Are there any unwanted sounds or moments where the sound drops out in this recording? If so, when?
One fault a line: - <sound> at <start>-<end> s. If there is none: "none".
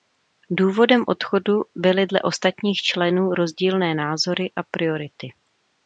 none